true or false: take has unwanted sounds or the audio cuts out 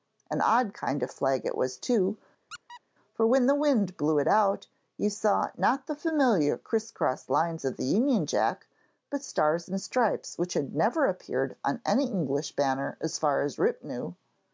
true